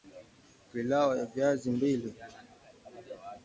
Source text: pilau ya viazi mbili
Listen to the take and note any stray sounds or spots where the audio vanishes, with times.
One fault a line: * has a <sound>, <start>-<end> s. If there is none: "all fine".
all fine